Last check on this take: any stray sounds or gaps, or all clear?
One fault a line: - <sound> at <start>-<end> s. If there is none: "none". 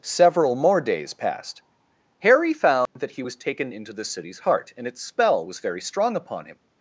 - dropout at 2.9-3.0 s